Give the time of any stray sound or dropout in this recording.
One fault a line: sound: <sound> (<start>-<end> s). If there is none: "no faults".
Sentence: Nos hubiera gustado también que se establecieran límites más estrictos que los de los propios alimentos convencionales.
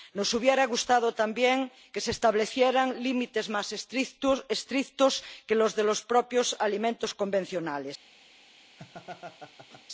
sound: laugh (8.8-9.8 s)